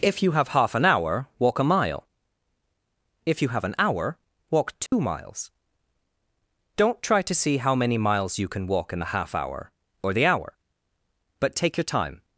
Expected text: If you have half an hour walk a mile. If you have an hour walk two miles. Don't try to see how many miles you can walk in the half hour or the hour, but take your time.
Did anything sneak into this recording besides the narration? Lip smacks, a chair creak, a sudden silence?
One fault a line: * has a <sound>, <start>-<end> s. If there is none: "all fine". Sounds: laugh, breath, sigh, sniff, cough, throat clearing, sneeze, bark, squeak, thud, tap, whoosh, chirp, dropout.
* has a dropout, 4.9-4.9 s